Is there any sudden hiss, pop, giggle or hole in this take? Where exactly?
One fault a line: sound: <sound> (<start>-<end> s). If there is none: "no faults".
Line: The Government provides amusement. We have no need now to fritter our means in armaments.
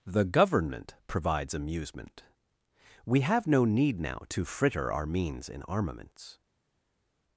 no faults